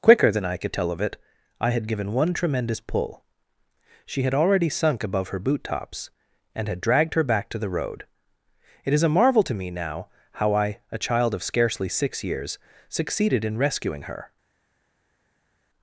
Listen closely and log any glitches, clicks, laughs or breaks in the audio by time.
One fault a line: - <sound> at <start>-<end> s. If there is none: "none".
none